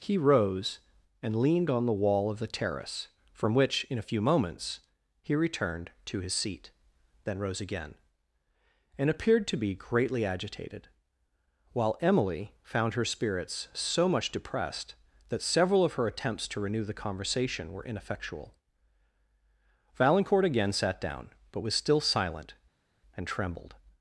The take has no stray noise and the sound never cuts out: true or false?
true